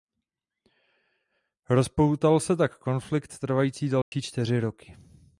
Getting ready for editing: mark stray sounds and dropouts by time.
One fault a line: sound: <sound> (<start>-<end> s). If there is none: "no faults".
sound: dropout (4.0-4.1 s)